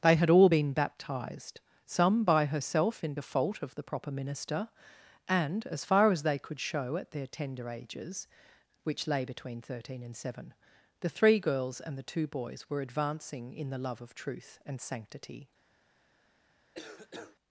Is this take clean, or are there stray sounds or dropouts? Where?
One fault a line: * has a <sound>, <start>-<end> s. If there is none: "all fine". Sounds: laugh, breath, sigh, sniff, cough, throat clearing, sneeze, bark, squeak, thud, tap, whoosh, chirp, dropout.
* has a cough, 16.7-17.4 s